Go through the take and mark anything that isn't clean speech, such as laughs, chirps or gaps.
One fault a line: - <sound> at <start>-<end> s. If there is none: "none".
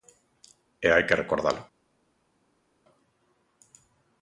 none